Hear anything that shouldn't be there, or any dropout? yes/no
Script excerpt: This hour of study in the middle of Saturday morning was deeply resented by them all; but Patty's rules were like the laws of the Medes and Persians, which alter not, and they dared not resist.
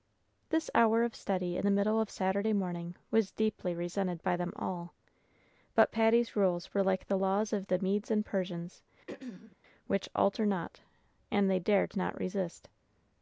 yes